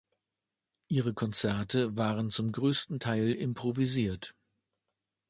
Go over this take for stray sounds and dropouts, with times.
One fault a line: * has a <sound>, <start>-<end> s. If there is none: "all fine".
all fine